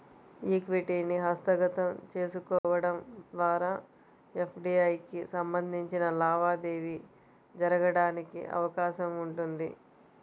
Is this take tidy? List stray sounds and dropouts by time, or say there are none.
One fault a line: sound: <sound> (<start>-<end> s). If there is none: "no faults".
sound: dropout (2.6-2.6 s)